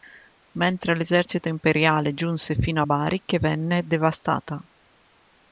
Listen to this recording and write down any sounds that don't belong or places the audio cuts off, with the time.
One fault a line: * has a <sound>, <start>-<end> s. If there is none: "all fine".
all fine